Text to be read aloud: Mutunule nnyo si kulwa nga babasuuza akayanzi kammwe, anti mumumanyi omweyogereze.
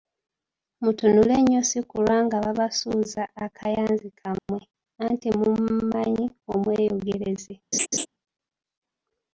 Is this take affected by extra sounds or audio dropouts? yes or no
yes